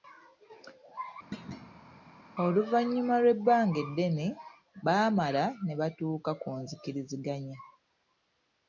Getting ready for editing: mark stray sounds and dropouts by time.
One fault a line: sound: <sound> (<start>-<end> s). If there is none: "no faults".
sound: thud (1.3-2.0 s)